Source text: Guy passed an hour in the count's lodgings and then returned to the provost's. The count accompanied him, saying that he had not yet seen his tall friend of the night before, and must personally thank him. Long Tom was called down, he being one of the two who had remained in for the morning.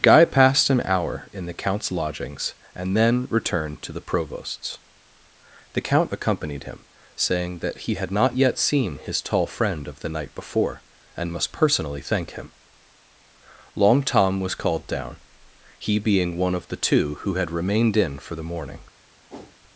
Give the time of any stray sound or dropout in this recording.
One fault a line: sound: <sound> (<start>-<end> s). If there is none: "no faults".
sound: whoosh (19.3-19.6 s)